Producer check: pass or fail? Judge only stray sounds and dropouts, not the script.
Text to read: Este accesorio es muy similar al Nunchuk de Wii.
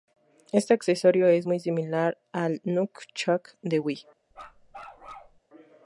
fail